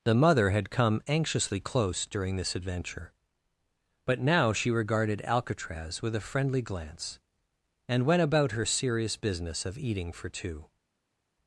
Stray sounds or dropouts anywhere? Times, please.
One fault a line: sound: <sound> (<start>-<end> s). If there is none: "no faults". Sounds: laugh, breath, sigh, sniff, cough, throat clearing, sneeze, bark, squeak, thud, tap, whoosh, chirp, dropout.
no faults